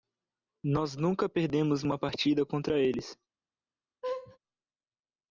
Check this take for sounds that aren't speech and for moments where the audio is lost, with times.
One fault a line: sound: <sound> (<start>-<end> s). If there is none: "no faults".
sound: laugh (4.0-4.4 s)